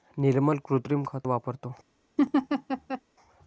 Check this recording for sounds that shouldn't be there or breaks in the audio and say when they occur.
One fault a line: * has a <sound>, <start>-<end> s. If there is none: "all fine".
* has a laugh, 2.2-3.0 s